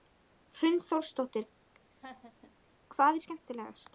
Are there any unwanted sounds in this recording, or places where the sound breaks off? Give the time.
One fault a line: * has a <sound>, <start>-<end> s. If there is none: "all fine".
* has a laugh, 1.9-2.5 s